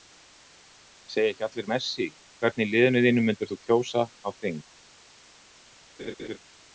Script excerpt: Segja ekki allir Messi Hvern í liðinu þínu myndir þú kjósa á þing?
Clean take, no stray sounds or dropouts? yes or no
no